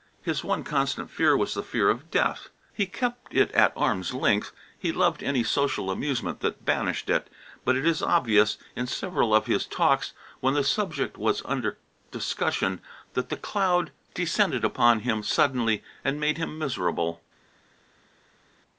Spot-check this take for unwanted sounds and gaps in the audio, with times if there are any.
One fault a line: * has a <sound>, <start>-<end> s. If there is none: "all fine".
all fine